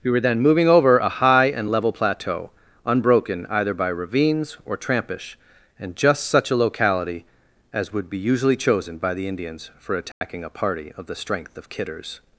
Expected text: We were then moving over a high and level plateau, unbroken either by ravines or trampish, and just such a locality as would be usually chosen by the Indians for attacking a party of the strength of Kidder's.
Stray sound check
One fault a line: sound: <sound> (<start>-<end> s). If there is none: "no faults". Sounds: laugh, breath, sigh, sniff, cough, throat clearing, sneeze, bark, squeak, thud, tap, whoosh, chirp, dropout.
sound: dropout (10.1-10.2 s)